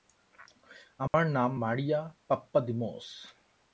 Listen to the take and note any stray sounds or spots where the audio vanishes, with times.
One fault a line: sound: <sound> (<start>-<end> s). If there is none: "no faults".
sound: dropout (1.1-1.1 s)